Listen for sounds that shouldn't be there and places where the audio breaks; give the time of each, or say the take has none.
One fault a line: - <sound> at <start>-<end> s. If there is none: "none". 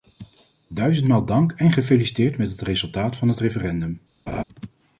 - laugh at 4.3-4.4 s